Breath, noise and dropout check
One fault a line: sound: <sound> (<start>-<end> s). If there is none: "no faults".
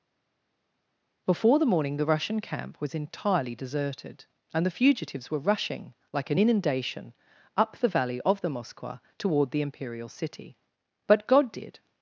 no faults